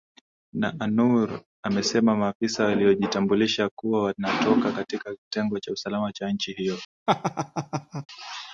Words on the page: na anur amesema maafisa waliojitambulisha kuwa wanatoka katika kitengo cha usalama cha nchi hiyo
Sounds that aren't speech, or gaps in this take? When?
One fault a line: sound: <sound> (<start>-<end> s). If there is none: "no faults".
sound: laugh (7.1-8.1 s)